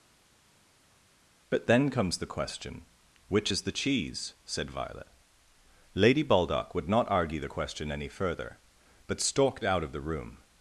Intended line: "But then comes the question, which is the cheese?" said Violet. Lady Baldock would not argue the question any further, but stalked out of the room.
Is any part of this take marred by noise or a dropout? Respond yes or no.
no